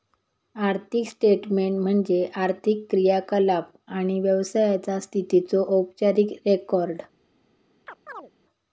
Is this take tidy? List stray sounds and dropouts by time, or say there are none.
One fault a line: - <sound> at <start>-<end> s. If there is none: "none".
- chirp at 7.9-8.3 s